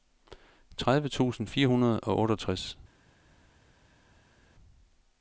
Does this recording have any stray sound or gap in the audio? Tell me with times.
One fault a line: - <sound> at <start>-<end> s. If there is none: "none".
none